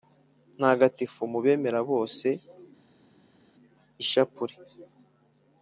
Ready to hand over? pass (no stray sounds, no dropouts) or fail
pass